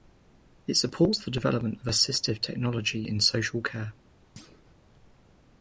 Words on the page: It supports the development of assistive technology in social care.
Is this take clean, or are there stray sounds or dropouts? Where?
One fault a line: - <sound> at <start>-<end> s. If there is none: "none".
- thud at 4.4-4.7 s